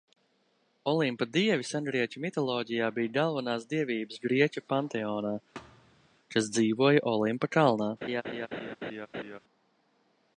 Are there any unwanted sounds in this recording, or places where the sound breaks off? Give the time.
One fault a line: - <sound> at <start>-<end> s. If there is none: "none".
- thud at 5.5-6.1 s
- laugh at 8.0-9.4 s